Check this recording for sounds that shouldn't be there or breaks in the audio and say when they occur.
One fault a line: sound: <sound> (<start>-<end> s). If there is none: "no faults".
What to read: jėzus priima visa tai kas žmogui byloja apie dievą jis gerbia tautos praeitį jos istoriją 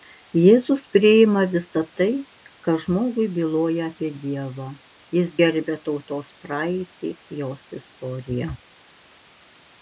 no faults